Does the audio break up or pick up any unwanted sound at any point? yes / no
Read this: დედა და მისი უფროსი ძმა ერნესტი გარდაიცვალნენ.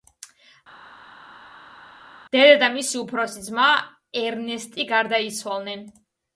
no